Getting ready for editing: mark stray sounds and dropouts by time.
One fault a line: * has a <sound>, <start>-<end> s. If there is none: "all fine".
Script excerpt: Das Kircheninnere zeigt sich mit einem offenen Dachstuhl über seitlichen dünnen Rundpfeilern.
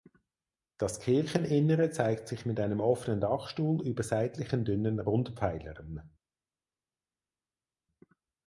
all fine